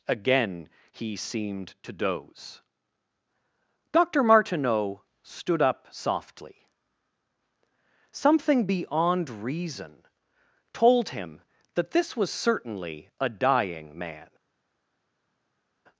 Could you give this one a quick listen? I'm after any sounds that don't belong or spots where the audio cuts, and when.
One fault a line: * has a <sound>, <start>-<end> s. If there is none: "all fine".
all fine